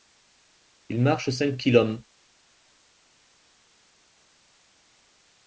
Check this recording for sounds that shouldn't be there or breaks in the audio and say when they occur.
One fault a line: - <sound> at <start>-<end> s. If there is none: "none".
none